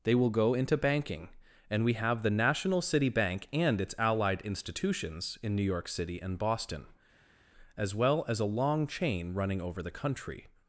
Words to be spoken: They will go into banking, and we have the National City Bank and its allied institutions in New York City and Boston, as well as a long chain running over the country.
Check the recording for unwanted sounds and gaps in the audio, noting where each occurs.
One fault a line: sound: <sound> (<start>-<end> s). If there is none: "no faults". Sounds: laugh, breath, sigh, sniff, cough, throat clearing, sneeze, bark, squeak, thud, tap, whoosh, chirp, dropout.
no faults